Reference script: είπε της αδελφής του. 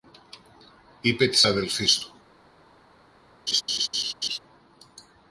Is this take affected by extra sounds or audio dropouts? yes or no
yes